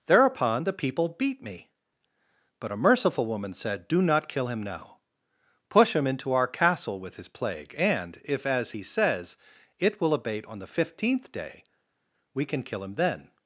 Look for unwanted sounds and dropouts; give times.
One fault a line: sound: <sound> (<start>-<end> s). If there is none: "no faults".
no faults